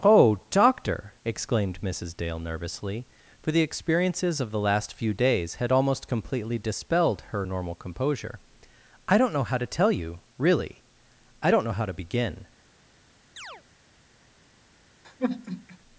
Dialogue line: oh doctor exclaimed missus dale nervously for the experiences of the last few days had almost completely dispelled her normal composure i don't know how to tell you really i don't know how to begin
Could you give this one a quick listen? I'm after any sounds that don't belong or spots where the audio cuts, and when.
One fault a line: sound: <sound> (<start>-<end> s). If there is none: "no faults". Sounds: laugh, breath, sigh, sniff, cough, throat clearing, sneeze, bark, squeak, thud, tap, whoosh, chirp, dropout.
sound: chirp (13.4-13.6 s)
sound: sigh (15.0-15.8 s)